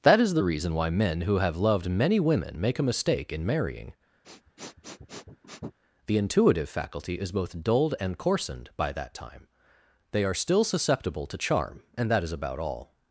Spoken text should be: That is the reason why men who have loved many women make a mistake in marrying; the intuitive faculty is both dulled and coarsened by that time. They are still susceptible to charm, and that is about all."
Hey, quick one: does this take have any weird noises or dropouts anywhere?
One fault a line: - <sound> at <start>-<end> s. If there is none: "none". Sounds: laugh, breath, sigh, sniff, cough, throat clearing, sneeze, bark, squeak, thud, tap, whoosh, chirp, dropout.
- sniff at 4.2-5.8 s